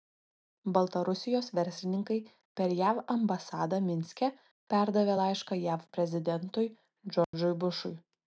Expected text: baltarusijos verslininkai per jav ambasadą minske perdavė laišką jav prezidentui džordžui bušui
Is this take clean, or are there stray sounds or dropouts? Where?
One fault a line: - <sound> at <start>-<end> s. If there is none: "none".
- dropout at 7.2-7.3 s